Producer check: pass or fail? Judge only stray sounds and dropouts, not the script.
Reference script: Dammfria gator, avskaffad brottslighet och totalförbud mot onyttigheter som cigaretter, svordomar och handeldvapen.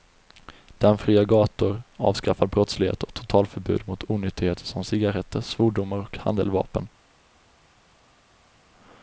pass